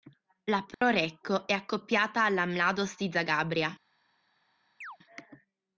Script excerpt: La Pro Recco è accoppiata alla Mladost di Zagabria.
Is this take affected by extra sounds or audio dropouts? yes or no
yes